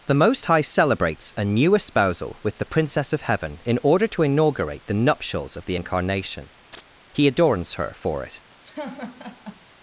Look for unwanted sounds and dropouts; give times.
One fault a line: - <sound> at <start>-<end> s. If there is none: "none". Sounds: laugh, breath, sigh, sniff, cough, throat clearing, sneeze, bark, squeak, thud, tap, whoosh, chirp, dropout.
- chirp at 6.7-6.8 s
- laugh at 8.6-9.7 s